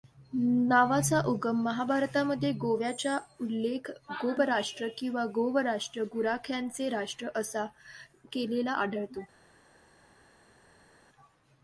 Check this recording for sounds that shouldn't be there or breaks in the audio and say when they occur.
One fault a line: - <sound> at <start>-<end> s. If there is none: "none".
none